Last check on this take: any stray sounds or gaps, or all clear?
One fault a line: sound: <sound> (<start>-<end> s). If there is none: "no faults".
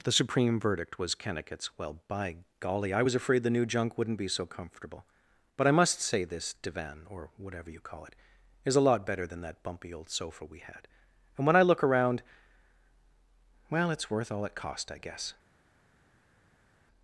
no faults